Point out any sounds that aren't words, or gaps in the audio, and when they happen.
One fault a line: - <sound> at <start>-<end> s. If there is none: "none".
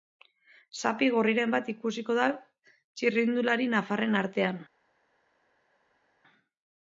none